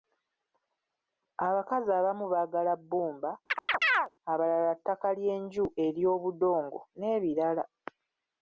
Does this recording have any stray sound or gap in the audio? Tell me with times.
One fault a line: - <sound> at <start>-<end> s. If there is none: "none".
- chirp at 3.5-4.1 s